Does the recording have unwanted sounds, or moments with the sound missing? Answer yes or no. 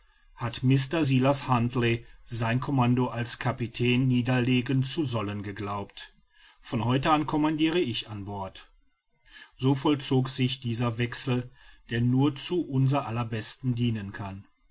no